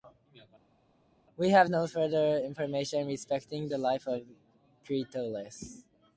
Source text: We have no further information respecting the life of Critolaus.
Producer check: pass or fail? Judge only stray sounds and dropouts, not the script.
pass